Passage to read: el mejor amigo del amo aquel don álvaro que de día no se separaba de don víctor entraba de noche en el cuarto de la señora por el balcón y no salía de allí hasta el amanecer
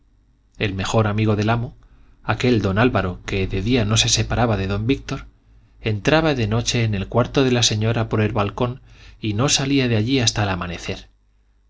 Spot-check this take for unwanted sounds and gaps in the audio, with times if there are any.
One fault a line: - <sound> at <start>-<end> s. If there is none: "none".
none